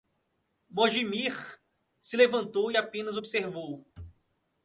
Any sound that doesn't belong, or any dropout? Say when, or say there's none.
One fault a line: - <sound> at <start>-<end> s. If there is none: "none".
none